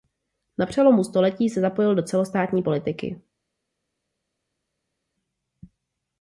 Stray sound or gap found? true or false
false